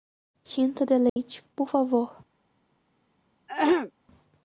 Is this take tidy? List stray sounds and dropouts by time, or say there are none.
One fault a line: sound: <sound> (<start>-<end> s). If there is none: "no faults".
sound: dropout (1.1-1.2 s)
sound: throat clearing (3.5-3.9 s)